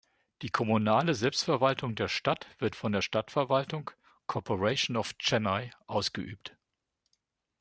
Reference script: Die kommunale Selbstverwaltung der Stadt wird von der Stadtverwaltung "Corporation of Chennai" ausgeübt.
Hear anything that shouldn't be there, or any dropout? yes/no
no